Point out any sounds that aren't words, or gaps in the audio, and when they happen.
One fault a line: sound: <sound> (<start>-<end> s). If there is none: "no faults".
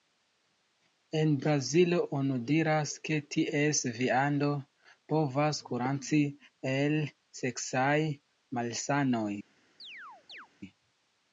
sound: chirp (9.8-10.5 s)